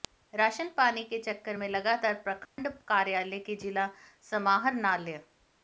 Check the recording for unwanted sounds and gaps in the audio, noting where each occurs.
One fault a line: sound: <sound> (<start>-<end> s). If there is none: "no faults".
sound: dropout (2.5-2.6 s)